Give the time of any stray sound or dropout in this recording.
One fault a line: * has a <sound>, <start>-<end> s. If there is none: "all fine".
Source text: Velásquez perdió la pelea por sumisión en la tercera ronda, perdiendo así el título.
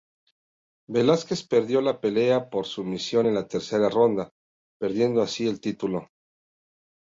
all fine